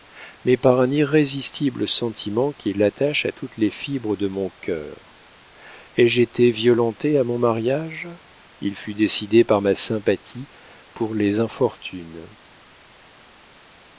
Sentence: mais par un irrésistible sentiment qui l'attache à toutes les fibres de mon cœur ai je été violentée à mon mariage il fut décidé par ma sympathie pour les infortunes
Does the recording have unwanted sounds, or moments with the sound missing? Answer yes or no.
no